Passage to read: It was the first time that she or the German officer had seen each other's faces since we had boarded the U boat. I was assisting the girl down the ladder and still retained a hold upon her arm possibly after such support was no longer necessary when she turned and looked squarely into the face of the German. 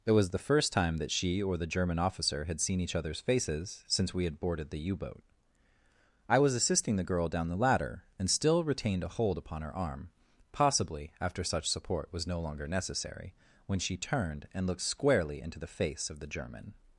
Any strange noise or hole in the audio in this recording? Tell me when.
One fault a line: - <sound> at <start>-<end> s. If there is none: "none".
none